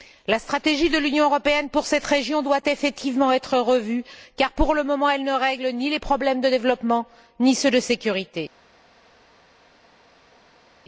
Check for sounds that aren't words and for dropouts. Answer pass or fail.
pass